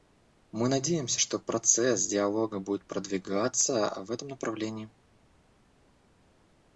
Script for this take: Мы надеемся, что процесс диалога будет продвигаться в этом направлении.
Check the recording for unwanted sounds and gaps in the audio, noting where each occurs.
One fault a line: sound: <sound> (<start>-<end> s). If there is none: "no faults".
no faults